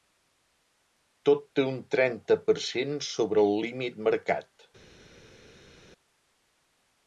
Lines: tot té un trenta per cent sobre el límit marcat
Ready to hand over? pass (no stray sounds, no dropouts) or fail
pass